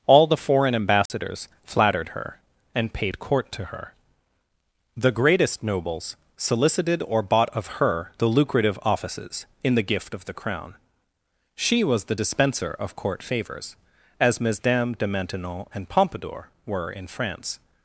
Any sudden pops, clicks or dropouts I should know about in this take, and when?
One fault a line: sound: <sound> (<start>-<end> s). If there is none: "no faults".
sound: dropout (1.1-1.1 s)